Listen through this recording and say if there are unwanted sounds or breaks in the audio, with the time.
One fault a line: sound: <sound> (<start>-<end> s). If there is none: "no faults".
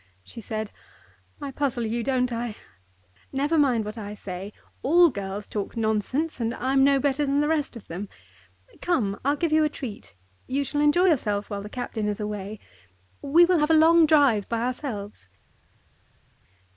no faults